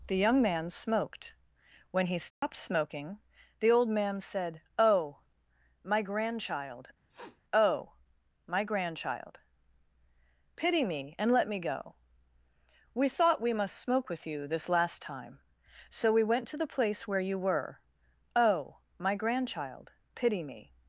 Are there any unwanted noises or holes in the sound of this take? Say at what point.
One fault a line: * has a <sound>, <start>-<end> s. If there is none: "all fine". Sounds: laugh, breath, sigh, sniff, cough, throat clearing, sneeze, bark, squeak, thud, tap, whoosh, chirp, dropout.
* has a dropout, 2.3-2.4 s
* has a sniff, 7.1-7.4 s